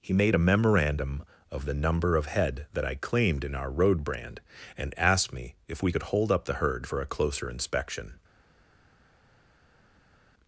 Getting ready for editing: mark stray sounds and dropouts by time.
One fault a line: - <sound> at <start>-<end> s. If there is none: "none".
none